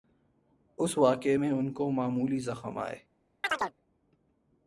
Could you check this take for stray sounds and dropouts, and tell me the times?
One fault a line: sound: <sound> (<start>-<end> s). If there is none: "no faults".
sound: chirp (3.4-3.7 s)